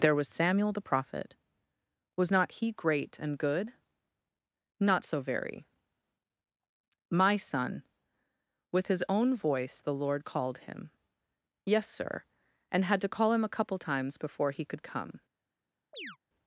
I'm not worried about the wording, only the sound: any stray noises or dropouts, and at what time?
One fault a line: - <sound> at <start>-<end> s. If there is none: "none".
- chirp at 15.9-16.2 s